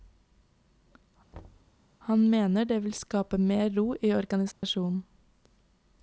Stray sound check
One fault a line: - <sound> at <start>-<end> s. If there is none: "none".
- thud at 1.3-1.7 s
- dropout at 4.5-4.6 s